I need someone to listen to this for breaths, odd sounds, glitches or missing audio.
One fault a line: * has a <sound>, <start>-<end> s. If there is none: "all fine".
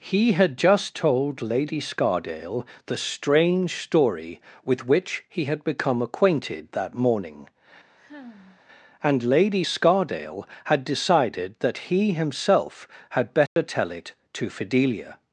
* has a sigh, 8.0-8.6 s
* has a dropout, 13.5-13.6 s